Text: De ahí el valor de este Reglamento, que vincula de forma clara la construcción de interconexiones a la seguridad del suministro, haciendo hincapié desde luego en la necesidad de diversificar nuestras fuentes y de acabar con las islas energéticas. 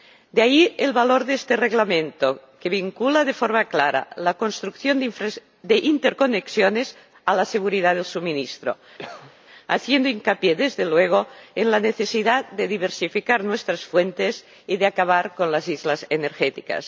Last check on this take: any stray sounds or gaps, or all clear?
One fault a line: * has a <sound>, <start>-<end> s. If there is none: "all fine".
* has a cough, 9.0-9.4 s